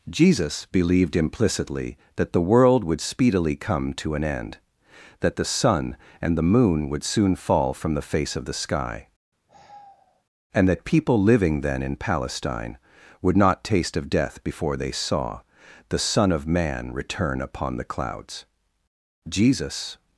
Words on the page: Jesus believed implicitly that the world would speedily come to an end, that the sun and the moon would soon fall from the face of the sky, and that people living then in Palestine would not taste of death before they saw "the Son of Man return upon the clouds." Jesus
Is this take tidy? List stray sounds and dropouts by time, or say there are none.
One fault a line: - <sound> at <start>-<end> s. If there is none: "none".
- sigh at 9.5-10.2 s